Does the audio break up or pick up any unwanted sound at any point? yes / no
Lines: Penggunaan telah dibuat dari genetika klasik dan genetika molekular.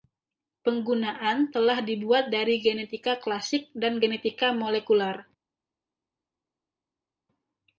no